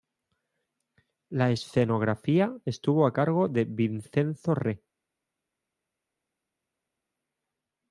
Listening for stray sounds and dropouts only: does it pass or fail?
pass